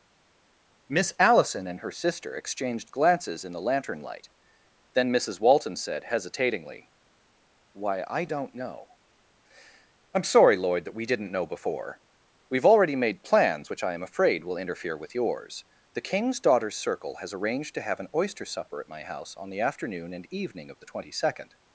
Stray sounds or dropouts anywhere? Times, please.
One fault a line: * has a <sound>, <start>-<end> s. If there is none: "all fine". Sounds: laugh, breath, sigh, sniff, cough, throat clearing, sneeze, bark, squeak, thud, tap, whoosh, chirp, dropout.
all fine